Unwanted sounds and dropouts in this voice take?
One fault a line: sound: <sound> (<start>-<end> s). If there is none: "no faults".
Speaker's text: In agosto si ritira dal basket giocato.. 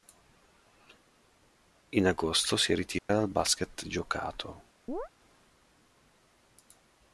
sound: dropout (3.0-3.1 s)
sound: chirp (4.9-5.1 s)